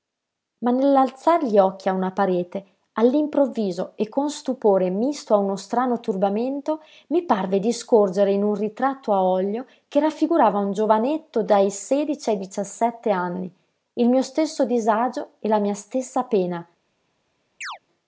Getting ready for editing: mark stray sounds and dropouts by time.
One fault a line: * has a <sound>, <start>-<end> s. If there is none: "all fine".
* has a chirp, 17.6-17.8 s